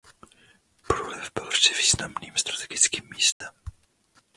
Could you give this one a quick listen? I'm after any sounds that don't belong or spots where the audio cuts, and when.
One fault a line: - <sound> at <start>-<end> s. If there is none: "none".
- dropout at 3.3-3.4 s